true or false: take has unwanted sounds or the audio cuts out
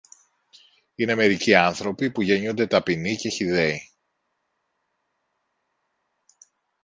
false